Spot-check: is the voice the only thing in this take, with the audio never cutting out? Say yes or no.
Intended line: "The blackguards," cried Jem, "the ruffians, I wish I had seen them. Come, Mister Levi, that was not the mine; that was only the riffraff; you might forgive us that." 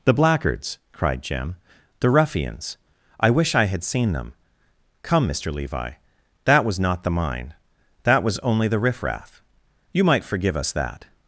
yes